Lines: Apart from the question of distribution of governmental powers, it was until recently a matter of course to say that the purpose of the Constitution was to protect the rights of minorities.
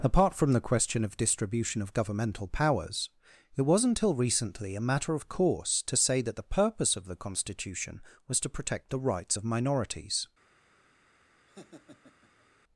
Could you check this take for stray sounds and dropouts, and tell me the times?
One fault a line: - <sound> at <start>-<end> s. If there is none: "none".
- laugh at 11.5-12.5 s